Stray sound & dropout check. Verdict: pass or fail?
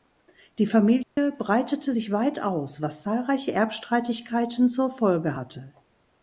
fail